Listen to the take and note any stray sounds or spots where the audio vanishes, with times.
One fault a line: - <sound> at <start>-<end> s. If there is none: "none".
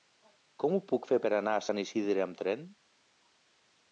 none